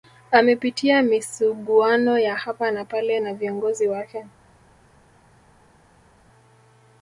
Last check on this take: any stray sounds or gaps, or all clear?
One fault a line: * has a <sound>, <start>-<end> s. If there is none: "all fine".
all fine